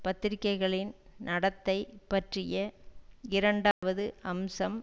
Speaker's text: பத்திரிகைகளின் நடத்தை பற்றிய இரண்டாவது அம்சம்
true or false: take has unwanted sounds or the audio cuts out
true